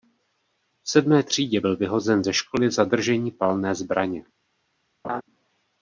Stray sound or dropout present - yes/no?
yes